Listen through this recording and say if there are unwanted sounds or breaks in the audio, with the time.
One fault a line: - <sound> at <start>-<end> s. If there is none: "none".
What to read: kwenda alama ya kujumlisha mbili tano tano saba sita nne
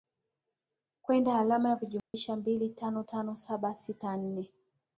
- dropout at 2.0-2.1 s